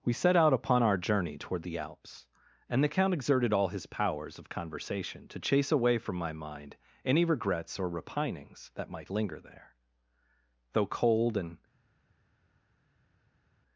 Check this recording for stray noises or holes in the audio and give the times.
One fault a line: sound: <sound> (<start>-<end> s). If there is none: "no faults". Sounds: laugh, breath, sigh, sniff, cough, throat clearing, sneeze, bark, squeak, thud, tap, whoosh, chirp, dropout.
no faults